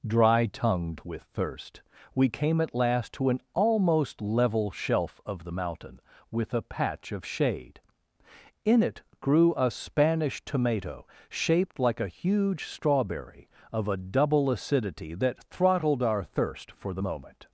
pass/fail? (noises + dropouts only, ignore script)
pass